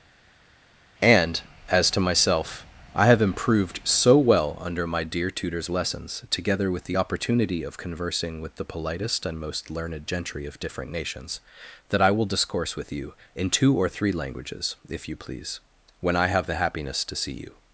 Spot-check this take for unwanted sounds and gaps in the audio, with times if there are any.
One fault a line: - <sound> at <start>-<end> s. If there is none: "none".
none